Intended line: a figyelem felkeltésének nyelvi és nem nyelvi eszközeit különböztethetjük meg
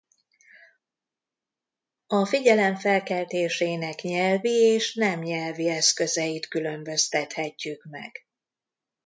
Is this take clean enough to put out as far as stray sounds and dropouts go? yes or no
yes